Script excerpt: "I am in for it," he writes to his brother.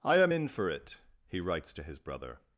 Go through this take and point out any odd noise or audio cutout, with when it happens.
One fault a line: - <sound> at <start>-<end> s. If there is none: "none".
none